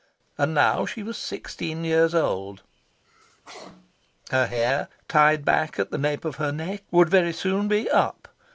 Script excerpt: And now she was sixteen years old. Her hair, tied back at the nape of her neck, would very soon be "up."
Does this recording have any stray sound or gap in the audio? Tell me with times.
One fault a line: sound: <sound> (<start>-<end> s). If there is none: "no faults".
sound: sneeze (3.0-3.9 s)